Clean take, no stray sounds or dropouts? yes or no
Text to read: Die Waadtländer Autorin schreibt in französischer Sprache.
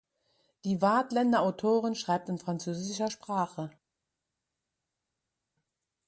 yes